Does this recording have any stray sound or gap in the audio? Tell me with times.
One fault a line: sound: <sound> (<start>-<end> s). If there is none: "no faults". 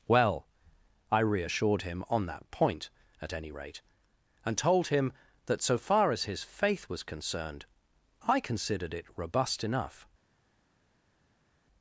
no faults